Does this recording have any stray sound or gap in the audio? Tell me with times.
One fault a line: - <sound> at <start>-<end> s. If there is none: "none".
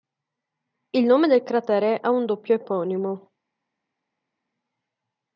none